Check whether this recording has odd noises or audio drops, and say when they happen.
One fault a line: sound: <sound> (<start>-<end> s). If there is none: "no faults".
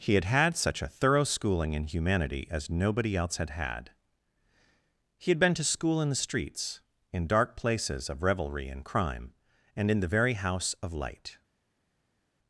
no faults